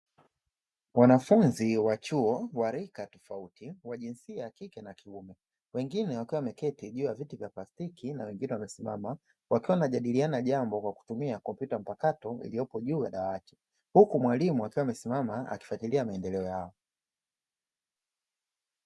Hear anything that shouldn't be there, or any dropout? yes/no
no